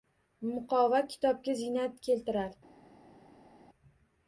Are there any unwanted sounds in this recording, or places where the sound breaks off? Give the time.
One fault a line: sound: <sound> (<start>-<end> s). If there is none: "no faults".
no faults